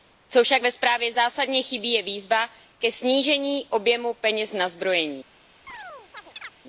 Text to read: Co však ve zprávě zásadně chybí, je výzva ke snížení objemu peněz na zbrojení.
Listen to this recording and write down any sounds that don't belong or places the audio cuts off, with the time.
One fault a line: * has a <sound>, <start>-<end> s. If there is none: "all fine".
* has a chirp, 5.7-6.5 s